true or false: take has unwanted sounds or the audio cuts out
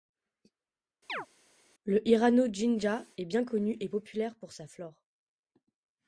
true